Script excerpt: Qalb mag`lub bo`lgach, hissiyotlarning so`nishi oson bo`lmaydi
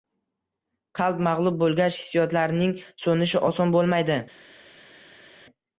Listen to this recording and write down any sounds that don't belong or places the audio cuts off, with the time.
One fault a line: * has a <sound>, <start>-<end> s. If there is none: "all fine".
all fine